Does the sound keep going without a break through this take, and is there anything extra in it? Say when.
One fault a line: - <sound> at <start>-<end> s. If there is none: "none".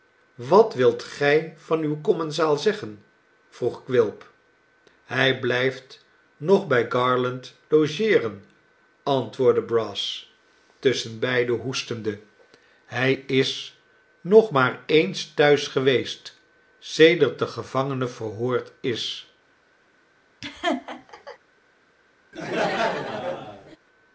- laugh at 20.4-21.4 s
- laugh at 22.3-23.8 s